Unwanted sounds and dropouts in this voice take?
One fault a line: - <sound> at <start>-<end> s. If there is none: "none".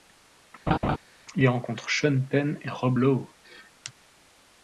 - laugh at 0.7-1.0 s